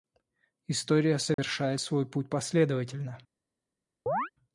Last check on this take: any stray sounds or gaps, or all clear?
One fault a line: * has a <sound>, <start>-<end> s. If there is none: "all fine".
* has a dropout, 1.3-1.4 s
* has a chirp, 4.1-4.3 s